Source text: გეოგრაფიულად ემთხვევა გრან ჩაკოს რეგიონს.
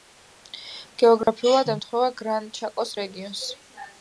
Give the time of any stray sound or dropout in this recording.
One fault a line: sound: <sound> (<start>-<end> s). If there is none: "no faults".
sound: dropout (1.2-1.3 s)